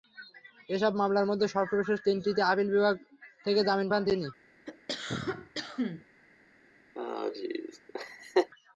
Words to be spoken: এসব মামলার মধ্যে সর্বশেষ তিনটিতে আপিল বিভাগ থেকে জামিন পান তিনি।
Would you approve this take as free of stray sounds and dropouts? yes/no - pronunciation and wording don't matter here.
no